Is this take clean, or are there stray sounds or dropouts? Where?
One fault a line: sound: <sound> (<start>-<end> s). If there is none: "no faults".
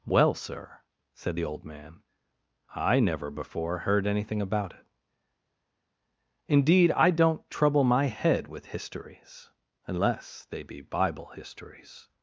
no faults